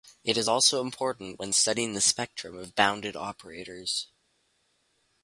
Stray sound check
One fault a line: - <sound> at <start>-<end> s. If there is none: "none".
none